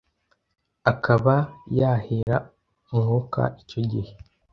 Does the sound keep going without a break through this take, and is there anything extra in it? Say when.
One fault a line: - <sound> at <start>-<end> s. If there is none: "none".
- dropout at 2.2-2.3 s